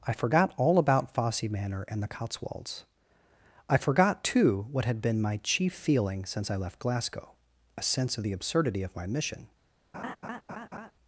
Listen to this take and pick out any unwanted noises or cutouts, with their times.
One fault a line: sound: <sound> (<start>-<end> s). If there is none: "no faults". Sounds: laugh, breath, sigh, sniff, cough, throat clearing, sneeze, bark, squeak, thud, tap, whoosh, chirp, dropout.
sound: laugh (9.9-10.9 s)